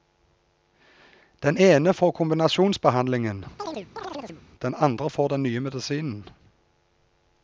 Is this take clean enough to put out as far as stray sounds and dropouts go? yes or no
no